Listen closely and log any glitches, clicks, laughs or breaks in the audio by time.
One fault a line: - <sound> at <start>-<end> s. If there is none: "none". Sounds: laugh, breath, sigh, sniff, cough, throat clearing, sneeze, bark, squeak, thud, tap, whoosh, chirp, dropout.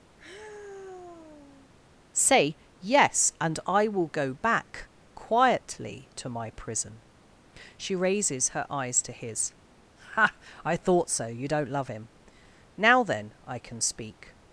- sigh at 0.2-1.7 s